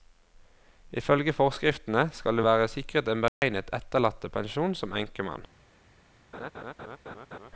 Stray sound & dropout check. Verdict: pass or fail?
fail